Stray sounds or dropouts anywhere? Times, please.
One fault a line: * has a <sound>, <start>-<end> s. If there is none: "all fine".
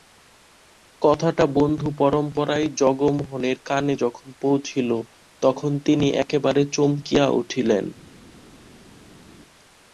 all fine